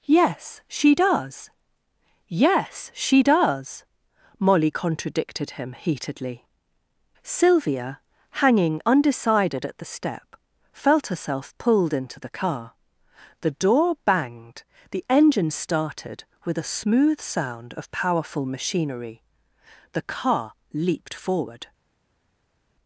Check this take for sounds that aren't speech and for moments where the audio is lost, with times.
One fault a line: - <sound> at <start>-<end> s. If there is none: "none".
none